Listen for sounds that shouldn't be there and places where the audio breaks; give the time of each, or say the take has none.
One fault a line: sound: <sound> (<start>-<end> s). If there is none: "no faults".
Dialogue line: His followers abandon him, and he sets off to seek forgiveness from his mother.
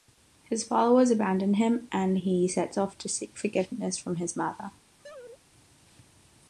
sound: laugh (5.0-5.4 s)